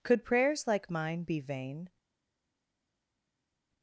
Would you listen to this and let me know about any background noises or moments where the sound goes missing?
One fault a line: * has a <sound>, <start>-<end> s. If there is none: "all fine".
all fine